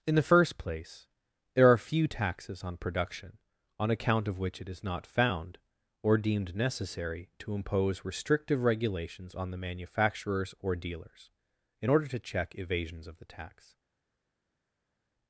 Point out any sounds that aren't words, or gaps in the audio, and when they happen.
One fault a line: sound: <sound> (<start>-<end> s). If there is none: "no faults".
no faults